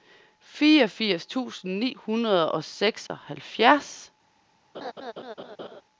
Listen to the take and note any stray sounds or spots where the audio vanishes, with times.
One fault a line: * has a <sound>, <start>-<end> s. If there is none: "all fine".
* has a dropout, 3.1-3.1 s
* has a laugh, 4.7-5.8 s